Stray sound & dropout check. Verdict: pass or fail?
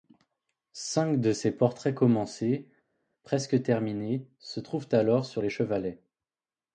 pass